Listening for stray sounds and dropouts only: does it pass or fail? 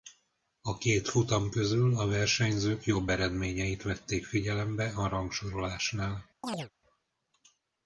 fail